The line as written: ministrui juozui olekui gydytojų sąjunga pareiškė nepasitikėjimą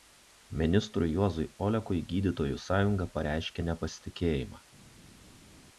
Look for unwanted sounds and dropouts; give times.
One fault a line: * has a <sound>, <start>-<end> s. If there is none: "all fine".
all fine